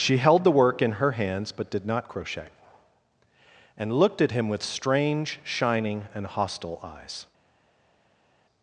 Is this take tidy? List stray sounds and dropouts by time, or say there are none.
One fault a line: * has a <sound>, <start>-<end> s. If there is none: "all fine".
all fine